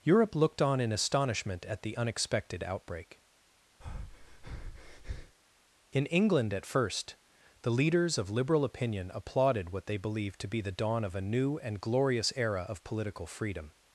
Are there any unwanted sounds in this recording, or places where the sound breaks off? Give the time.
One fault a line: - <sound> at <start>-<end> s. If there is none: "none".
- breath at 3.8-5.4 s